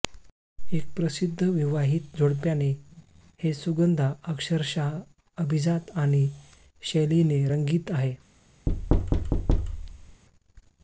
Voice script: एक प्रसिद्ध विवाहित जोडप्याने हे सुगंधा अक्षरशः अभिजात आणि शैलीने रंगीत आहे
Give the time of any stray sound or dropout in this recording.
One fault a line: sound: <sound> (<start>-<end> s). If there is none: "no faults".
sound: thud (8.7-10.2 s)